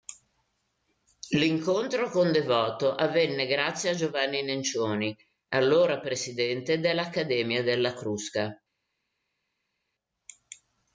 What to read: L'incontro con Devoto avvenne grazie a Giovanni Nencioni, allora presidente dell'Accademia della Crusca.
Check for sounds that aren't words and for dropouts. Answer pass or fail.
pass